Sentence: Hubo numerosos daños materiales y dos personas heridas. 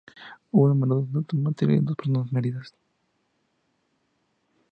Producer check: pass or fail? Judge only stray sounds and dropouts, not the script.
pass